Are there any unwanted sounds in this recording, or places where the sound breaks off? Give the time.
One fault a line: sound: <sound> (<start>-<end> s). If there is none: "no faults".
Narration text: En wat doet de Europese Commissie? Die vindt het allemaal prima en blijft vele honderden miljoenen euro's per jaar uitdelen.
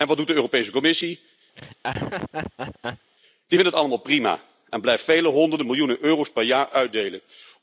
sound: laugh (1.6-3.1 s)